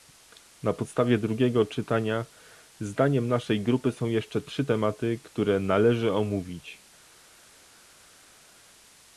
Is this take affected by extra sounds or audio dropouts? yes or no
no